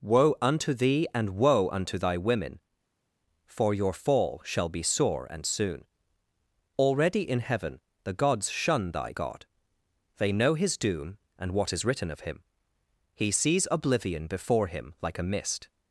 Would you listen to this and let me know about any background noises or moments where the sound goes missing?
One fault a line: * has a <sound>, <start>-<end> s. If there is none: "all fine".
all fine